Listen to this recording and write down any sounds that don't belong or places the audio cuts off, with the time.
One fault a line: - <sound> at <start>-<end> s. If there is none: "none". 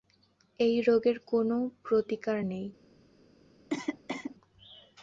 - cough at 3.7-4.4 s